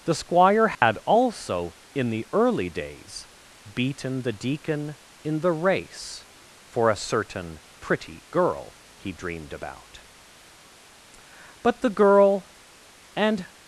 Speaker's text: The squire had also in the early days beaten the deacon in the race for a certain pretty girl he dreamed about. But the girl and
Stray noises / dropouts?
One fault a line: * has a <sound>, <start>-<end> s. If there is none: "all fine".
* has a dropout, 0.7-0.8 s